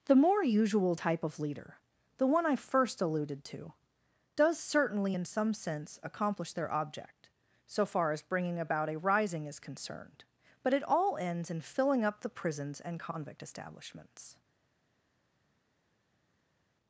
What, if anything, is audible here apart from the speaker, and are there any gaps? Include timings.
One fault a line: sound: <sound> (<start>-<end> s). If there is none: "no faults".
no faults